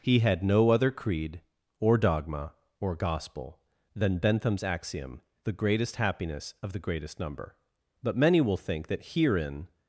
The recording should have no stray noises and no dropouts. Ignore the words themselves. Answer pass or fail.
pass